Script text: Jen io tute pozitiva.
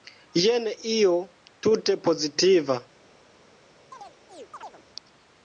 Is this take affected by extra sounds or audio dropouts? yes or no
yes